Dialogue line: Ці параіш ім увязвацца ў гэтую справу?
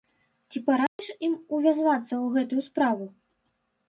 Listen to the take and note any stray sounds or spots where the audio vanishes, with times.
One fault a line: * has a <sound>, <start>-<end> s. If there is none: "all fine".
* has a dropout, 0.9-1.0 s